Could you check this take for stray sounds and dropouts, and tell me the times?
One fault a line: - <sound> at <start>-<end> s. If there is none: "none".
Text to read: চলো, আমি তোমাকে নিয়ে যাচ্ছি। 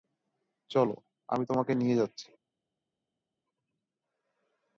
none